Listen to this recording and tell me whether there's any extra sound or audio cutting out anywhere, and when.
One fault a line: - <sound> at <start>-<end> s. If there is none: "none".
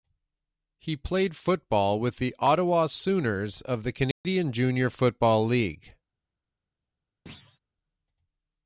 - dropout at 4.1-4.2 s
- thud at 7.3-7.6 s